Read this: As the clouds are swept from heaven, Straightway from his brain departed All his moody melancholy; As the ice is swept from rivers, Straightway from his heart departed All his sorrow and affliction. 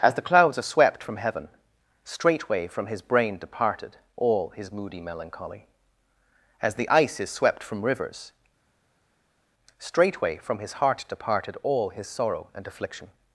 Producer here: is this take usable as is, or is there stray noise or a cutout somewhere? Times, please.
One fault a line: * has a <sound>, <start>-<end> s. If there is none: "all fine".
all fine